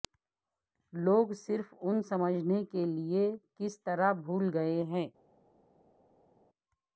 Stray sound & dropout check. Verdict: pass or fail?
pass